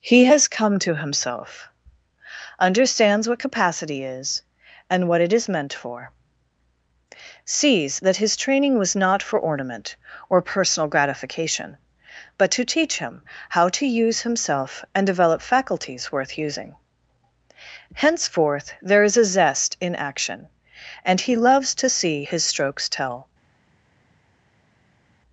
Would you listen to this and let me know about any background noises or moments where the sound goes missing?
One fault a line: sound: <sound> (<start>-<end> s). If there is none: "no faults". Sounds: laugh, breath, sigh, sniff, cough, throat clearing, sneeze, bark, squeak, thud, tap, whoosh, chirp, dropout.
no faults